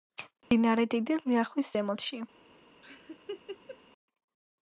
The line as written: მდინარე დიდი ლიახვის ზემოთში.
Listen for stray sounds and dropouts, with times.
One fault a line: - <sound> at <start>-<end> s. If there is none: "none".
- dropout at 0.4-0.5 s
- laugh at 2.8-3.8 s